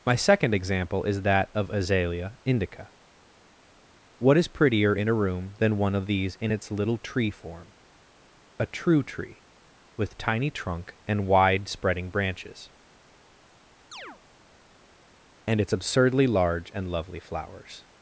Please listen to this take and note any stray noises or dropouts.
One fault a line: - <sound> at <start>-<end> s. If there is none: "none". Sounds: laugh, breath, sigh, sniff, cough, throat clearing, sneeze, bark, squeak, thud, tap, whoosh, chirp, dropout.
- chirp at 13.9-14.2 s